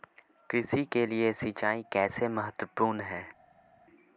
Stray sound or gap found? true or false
false